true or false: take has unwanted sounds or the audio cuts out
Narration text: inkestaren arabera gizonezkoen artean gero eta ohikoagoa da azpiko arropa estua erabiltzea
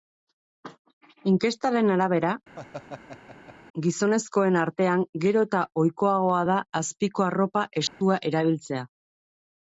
true